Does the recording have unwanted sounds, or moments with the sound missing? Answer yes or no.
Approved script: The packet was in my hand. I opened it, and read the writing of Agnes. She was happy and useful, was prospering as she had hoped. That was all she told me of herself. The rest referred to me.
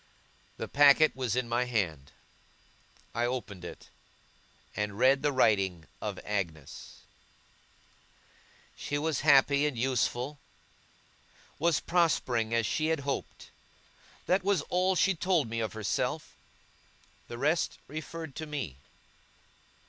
no